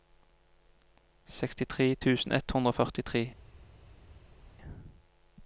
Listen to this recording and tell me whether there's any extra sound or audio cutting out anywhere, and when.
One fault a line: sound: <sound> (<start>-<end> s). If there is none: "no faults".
no faults